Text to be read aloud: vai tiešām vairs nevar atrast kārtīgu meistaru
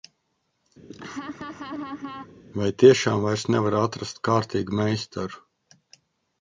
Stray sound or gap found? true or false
true